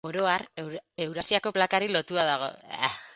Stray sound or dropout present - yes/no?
no